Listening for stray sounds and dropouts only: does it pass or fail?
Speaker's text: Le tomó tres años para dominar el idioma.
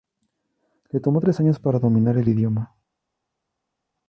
pass